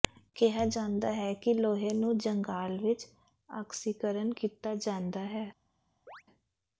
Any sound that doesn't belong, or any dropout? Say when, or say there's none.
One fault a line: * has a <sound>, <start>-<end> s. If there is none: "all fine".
* has a chirp, 6.1-6.2 s